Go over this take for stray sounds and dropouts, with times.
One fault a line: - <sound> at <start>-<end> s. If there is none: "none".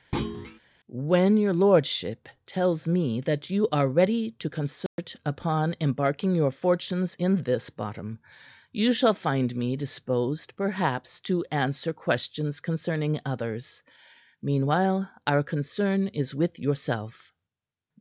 - thud at 0.1-0.6 s
- dropout at 4.9-5.0 s